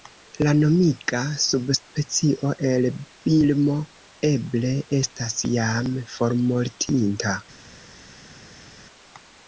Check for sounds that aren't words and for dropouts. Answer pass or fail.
pass